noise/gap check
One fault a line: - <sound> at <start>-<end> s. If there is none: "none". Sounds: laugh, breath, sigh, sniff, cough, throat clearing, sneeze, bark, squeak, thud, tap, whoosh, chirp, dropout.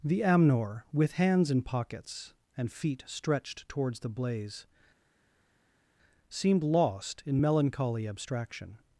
none